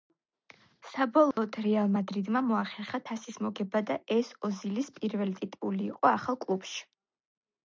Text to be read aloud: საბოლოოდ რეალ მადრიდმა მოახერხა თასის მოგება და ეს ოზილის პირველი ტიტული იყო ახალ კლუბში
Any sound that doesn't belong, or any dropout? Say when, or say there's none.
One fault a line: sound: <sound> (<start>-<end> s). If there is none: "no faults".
sound: dropout (1.3-1.4 s)